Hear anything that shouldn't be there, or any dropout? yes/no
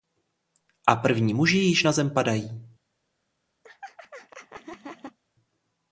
yes